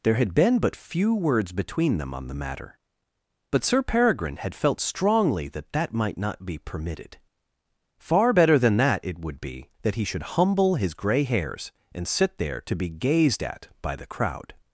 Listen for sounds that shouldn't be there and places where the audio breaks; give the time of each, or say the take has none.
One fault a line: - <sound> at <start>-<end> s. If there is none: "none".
none